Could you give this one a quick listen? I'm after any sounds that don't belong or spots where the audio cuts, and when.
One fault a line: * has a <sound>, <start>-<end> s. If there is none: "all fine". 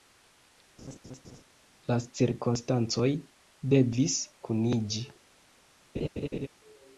* has a laugh, 0.8-1.4 s
* has a laugh, 5.9-6.5 s